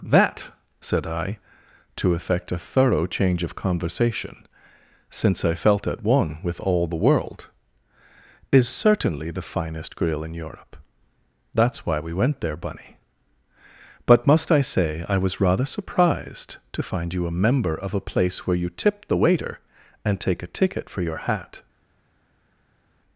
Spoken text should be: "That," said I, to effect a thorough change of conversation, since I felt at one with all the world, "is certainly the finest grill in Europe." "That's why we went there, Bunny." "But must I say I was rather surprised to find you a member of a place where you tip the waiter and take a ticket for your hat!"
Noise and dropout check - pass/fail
pass